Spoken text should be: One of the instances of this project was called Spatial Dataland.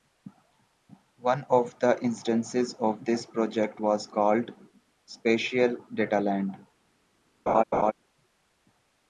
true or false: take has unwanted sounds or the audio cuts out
true